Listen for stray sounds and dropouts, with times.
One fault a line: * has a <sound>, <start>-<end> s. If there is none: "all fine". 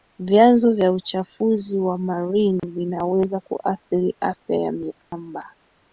* has a dropout, 2.6-2.6 s
* has a dropout, 5.0-5.1 s